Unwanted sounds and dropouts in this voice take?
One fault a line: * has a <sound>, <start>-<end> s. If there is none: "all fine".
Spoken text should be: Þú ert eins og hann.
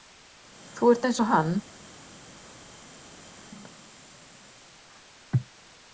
all fine